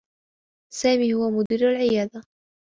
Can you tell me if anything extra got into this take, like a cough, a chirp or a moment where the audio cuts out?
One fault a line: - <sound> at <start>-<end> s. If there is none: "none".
- dropout at 1.5-1.5 s